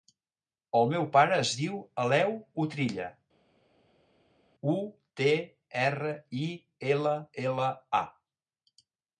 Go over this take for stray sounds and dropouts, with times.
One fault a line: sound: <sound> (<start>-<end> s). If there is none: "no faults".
no faults